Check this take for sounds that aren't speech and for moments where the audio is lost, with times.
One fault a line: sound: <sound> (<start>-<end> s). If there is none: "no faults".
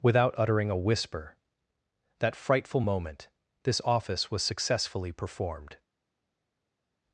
no faults